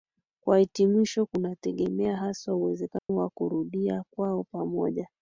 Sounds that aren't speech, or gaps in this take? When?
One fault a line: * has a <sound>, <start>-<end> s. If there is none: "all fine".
* has a dropout, 3.0-3.1 s